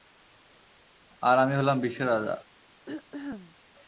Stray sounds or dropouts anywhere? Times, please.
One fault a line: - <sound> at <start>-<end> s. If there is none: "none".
- throat clearing at 2.9-3.6 s